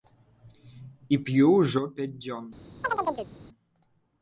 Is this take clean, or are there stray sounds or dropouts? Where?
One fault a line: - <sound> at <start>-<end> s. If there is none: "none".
- chirp at 2.8-3.3 s